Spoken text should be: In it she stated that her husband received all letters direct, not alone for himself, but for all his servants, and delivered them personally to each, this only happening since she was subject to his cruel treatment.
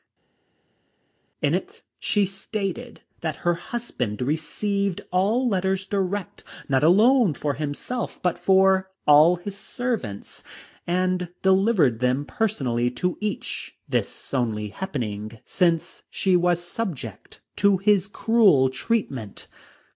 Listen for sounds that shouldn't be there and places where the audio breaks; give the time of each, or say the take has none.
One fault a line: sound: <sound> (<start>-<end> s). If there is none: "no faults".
no faults